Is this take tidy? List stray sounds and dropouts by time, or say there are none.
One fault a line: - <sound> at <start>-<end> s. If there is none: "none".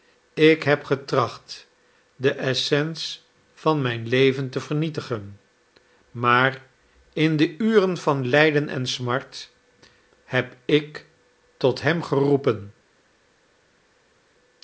none